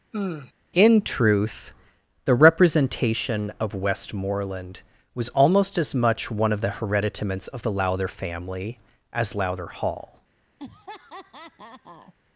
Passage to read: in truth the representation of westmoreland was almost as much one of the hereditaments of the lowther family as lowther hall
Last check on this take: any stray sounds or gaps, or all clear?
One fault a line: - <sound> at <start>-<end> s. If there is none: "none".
- sigh at 0.1-0.5 s
- laugh at 10.6-12.1 s